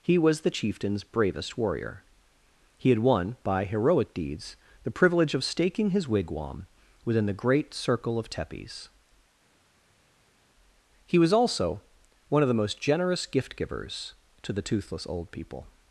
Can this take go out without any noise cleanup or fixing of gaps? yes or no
yes